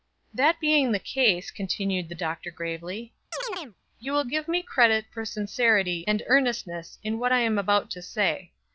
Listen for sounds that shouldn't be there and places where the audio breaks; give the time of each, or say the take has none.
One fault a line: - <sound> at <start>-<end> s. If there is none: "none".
- chirp at 3.3-3.8 s